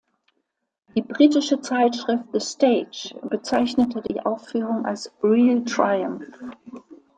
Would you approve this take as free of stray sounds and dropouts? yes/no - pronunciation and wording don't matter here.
no